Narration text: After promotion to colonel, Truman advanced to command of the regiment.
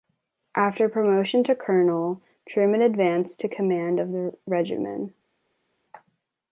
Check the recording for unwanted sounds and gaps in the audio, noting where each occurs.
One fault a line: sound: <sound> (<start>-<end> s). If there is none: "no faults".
no faults